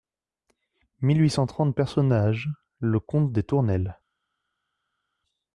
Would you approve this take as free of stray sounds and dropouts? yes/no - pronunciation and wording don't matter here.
yes